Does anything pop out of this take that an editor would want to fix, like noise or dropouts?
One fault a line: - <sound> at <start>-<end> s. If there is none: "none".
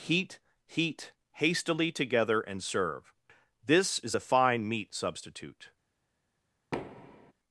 - thud at 6.7-7.3 s